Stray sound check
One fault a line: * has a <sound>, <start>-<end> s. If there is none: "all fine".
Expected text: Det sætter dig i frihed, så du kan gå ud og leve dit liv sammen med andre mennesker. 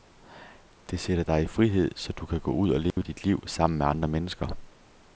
* has a dropout, 2.9-3.0 s